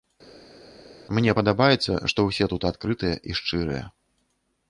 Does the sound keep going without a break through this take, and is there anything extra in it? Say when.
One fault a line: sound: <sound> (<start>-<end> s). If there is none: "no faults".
no faults